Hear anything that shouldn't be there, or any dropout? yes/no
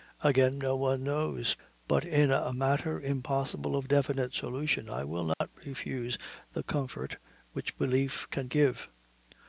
yes